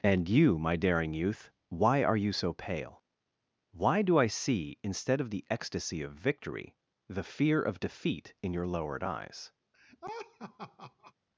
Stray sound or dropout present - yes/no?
yes